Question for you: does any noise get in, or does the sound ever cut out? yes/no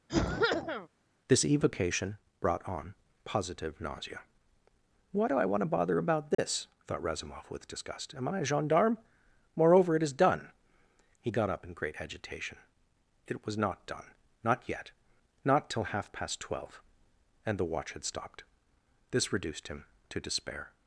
yes